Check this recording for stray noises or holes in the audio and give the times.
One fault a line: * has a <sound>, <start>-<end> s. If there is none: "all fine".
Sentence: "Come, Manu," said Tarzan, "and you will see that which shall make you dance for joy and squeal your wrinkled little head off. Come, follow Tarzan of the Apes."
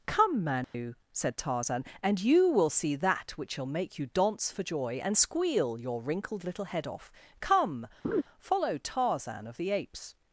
* has a dropout, 0.6-0.7 s
* has a laugh, 8.0-8.2 s